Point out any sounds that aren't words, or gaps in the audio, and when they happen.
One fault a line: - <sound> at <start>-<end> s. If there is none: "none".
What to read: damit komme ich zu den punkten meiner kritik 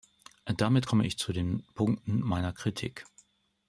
none